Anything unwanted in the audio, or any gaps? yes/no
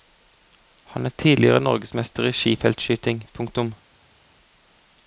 no